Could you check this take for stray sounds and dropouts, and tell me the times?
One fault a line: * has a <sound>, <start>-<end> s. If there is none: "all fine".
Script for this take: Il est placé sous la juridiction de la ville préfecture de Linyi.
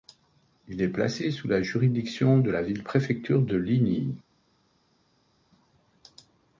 all fine